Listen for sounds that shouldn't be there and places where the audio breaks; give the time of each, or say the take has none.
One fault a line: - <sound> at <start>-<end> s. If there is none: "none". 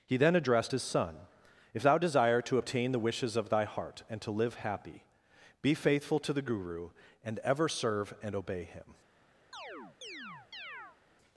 - chirp at 9.5-11.0 s